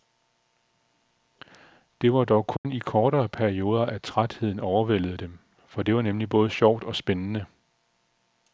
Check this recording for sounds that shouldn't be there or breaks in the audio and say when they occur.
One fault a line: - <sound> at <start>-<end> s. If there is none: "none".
- dropout at 2.6-2.6 s